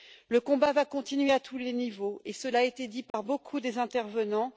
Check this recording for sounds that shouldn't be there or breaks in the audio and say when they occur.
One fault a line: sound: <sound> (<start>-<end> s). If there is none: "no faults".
sound: dropout (3.1-3.1 s)